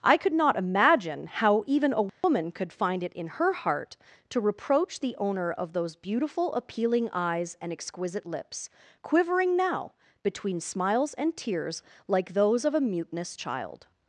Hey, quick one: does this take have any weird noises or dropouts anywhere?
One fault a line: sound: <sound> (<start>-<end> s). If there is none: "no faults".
sound: dropout (2.1-2.2 s)